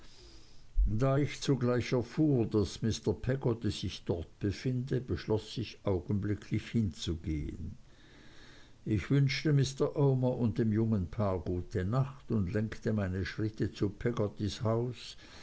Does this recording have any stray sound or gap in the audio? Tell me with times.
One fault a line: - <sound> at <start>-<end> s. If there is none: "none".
none